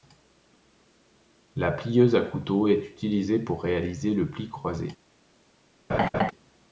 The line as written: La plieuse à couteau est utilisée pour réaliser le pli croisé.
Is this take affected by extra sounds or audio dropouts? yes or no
yes